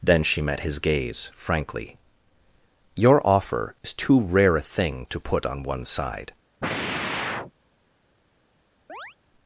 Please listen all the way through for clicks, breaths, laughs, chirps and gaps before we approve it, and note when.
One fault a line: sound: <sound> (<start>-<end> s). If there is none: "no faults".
sound: sigh (6.6-7.5 s)
sound: chirp (8.9-9.2 s)